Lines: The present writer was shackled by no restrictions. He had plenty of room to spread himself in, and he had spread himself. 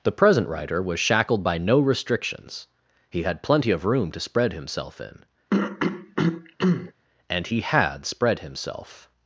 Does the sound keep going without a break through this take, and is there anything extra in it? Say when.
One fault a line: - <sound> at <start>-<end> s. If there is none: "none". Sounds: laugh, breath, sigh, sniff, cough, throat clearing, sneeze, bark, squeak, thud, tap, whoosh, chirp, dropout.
- throat clearing at 5.5-6.9 s